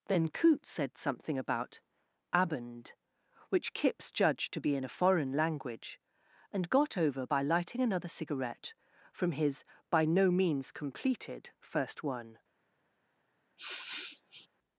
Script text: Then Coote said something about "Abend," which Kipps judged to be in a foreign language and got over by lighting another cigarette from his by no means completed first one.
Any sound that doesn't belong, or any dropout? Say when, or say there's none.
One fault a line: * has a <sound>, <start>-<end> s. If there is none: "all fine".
* has a sniff, 13.6-14.5 s